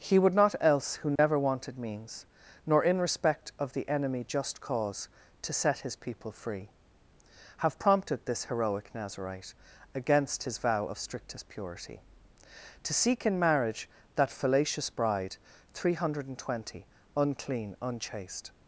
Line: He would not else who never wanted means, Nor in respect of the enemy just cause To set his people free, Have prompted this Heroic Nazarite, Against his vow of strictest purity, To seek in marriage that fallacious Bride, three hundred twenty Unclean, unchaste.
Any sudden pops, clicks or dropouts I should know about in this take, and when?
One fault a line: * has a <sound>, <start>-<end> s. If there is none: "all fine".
* has a dropout, 1.2-1.2 s